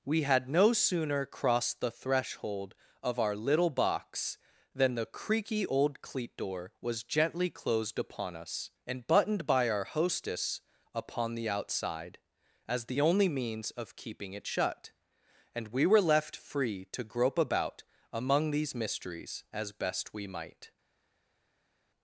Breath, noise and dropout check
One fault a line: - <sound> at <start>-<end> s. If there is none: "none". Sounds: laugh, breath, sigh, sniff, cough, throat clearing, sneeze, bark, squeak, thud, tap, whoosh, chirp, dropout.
none